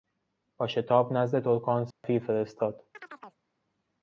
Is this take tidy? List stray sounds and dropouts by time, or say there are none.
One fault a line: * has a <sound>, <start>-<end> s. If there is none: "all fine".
* has a dropout, 1.9-2.0 s
* has a chirp, 2.9-3.4 s